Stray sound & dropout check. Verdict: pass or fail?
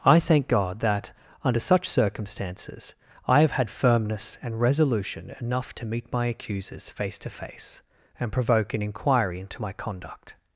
pass